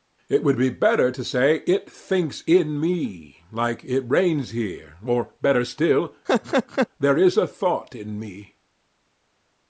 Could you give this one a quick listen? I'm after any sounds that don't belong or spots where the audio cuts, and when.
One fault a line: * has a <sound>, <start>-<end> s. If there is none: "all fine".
* has a laugh, 6.3-6.9 s